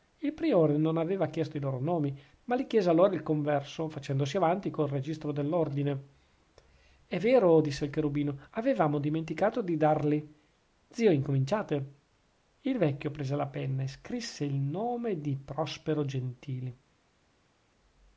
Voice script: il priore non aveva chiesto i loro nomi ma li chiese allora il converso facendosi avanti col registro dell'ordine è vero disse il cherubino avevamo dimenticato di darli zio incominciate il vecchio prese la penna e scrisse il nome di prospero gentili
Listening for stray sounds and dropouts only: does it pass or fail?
pass